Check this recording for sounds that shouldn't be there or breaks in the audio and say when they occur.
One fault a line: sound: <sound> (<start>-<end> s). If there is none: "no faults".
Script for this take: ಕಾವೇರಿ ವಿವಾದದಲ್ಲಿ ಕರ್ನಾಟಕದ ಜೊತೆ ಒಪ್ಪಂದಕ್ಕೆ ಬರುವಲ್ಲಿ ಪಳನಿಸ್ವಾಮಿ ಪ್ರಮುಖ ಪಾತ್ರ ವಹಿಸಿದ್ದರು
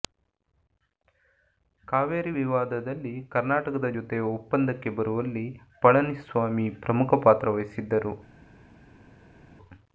no faults